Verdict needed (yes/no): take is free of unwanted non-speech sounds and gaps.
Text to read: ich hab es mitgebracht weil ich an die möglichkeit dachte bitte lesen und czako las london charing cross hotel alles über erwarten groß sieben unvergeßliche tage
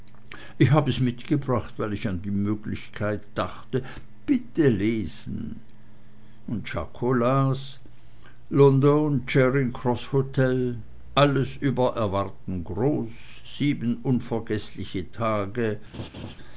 no